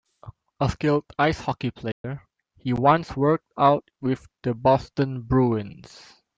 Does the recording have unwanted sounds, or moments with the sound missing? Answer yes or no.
yes